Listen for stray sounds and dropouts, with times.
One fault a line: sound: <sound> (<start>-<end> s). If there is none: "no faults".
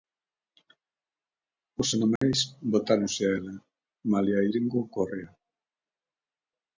sound: dropout (2.2-2.2 s)